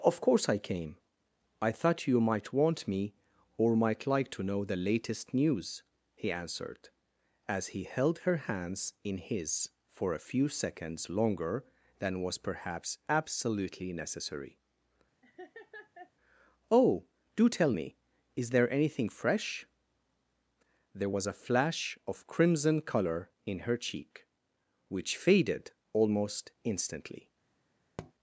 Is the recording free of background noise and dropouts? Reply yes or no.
no